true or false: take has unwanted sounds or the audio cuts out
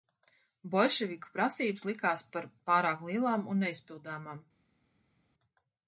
false